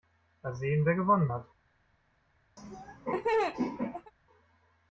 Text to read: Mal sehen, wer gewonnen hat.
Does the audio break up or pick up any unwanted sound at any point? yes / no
yes